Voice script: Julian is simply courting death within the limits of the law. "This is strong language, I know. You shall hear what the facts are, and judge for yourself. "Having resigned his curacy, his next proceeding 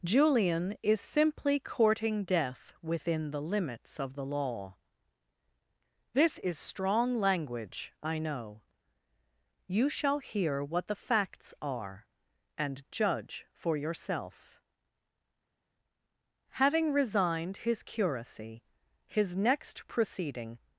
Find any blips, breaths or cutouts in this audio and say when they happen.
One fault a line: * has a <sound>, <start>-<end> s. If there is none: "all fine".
all fine